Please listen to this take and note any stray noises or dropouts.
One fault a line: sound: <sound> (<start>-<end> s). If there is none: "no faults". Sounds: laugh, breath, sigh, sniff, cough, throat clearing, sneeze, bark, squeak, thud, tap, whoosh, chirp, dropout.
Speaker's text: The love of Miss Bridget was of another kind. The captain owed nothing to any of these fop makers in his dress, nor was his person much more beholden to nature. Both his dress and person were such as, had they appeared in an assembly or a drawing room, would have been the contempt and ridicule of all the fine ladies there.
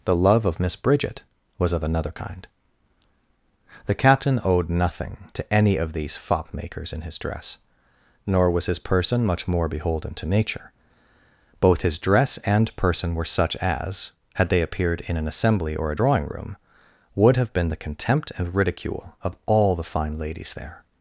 no faults